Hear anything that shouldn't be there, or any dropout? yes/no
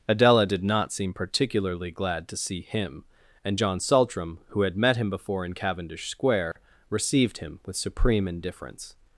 yes